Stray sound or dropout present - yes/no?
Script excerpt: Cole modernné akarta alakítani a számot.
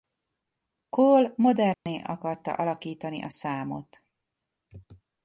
yes